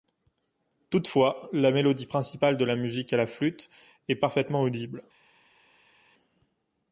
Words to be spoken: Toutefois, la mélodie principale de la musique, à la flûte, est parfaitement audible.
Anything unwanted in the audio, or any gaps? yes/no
no